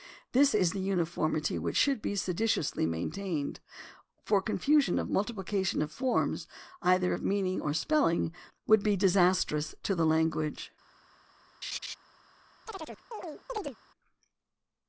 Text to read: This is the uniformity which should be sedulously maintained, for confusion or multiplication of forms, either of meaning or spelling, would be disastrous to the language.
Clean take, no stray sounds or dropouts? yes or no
no